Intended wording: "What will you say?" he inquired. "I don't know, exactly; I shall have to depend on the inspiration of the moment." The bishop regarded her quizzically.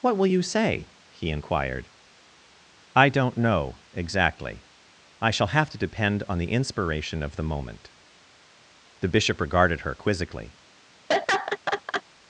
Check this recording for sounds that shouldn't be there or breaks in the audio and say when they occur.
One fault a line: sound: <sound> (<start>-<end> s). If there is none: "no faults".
sound: laugh (11.1-12.0 s)